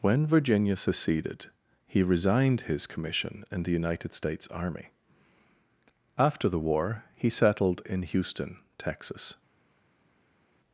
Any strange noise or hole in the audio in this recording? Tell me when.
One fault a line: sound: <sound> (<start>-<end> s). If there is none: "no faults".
no faults